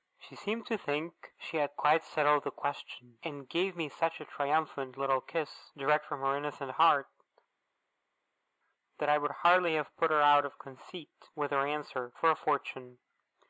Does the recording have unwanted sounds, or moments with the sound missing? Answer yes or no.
no